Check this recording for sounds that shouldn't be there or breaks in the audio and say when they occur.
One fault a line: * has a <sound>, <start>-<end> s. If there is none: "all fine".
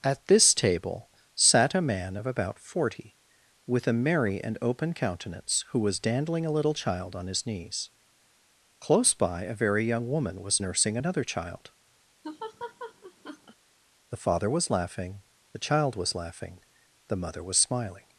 * has a laugh, 12.2-13.6 s